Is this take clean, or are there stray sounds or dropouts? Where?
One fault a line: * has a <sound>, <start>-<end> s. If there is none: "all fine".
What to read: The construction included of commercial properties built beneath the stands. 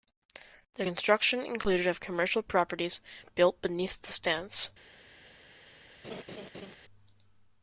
* has a laugh, 6.0-6.7 s